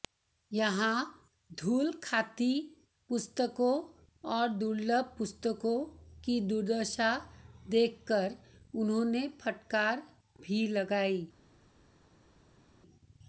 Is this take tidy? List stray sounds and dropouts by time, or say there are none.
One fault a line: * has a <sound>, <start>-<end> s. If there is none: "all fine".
all fine